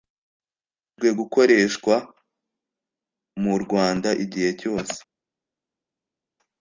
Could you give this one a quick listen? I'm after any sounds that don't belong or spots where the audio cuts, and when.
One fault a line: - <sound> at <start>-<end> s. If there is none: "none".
none